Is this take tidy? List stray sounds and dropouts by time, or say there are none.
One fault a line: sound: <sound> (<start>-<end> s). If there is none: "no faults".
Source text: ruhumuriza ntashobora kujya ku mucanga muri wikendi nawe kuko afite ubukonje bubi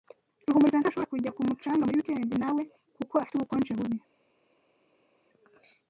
no faults